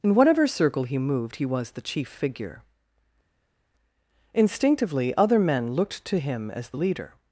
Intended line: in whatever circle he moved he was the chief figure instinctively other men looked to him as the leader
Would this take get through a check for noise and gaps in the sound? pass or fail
pass